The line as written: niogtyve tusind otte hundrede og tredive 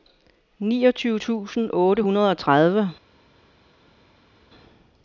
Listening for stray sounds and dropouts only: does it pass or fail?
pass